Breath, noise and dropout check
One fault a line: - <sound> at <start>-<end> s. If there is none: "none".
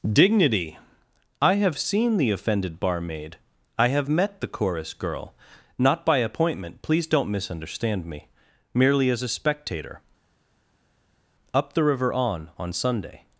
none